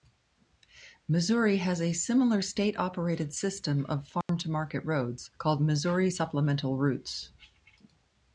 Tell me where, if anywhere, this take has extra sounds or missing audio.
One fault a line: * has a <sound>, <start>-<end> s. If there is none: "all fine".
* has a dropout, 4.2-4.3 s